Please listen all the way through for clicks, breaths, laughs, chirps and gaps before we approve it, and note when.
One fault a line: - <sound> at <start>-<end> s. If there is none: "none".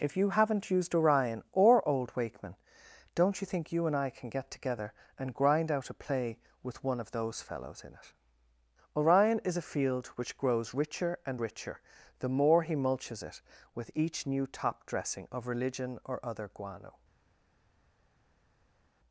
none